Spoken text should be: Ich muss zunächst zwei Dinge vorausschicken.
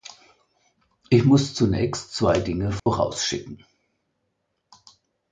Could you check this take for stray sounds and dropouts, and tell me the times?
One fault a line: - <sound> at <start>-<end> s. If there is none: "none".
- dropout at 2.8-2.9 s